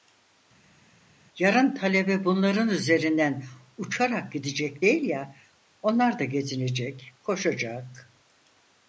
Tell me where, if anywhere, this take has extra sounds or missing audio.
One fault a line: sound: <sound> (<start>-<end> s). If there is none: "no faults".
no faults